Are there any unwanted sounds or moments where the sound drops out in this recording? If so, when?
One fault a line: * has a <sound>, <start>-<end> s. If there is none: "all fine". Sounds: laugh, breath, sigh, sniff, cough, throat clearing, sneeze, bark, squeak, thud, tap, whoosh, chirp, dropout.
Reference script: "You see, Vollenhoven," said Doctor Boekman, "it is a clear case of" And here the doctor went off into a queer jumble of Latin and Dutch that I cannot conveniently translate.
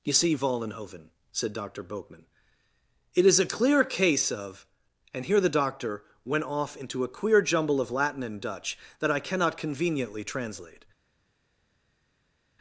all fine